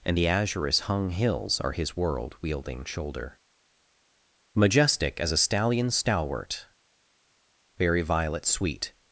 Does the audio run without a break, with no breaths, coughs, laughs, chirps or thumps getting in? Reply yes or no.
yes